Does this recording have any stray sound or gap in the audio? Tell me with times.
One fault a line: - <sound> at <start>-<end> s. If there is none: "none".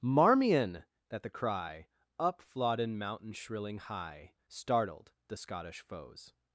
none